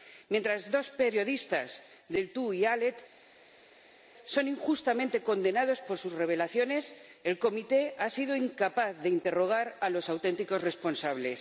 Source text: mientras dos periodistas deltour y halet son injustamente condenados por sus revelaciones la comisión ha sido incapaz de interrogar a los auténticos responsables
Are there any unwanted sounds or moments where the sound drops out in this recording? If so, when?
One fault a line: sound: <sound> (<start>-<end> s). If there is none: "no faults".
no faults